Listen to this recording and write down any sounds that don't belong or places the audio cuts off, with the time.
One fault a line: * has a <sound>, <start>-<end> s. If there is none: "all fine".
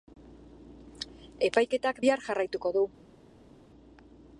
all fine